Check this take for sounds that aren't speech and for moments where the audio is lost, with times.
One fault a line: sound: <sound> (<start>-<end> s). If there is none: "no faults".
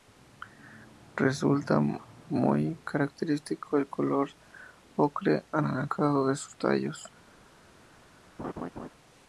sound: laugh (8.4-8.9 s)